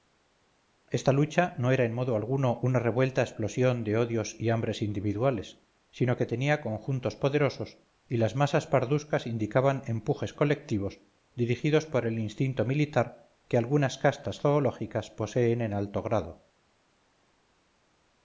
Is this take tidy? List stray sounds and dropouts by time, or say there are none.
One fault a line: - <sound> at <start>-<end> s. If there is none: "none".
none